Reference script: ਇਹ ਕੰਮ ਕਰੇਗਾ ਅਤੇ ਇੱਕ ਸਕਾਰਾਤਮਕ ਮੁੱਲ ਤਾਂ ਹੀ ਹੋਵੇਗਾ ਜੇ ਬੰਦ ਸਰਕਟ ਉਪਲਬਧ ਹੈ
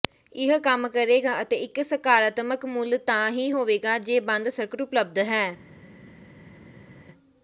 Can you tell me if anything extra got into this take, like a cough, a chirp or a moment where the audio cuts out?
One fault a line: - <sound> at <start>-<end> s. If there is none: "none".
none